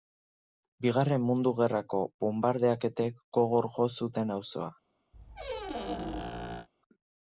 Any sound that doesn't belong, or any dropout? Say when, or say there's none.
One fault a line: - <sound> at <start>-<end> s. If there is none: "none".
- squeak at 5.1-6.7 s